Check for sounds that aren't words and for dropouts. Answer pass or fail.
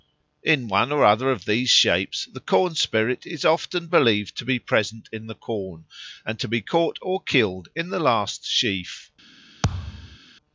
fail